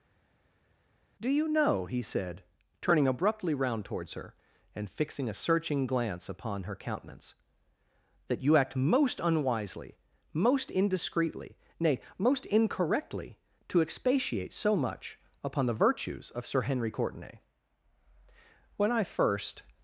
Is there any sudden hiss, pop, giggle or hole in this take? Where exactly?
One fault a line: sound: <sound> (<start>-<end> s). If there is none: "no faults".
no faults